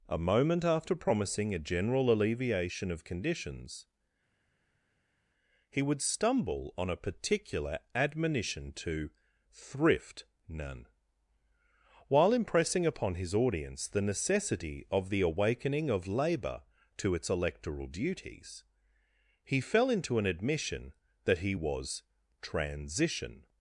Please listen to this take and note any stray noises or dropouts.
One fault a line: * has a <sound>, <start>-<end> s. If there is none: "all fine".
all fine